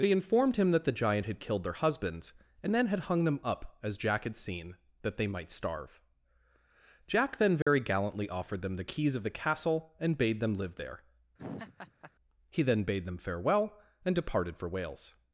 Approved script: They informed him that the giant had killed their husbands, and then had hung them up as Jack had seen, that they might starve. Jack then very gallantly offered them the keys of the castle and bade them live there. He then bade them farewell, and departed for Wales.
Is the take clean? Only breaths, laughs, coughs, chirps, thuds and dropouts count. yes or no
no